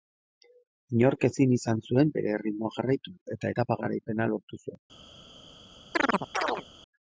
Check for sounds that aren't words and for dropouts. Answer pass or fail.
fail